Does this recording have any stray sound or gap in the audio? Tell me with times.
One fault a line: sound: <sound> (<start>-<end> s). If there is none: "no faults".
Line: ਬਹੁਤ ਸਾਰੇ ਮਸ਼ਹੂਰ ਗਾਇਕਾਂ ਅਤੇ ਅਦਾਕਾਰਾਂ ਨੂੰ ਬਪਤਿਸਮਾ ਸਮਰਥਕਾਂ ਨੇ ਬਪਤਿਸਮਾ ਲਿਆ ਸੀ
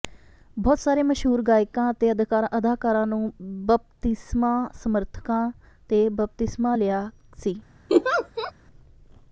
sound: laugh (7.9-8.5 s)